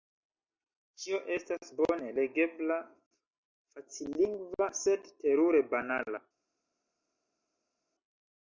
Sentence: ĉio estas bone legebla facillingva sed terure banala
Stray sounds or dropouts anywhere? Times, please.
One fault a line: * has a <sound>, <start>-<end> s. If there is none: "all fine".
all fine